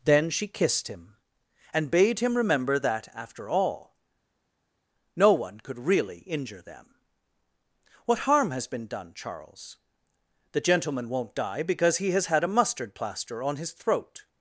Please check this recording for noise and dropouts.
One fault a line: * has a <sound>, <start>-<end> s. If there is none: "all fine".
all fine